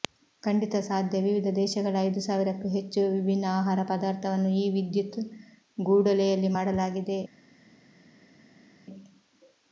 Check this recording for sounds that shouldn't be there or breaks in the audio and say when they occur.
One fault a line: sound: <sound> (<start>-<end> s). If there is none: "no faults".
no faults